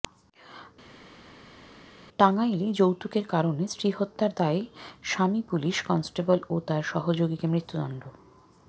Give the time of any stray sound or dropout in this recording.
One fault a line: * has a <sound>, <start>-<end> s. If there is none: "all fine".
all fine